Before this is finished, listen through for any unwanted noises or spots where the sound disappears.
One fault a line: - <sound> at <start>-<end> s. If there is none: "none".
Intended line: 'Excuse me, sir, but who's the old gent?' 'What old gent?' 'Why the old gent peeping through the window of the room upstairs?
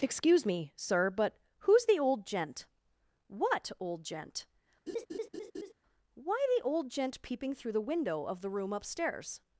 - laugh at 4.9-5.7 s